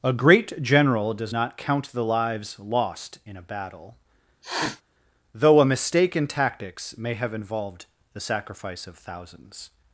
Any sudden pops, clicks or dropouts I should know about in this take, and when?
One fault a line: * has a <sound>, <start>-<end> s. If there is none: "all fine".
* has a sniff, 4.4-4.8 s